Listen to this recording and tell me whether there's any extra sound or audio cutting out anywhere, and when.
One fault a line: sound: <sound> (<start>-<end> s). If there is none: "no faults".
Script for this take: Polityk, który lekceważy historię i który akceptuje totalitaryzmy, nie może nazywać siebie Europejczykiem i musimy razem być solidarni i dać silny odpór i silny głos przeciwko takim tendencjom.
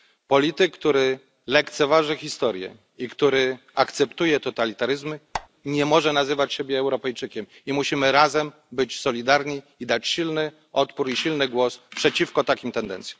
sound: squeak (5.3-5.5 s)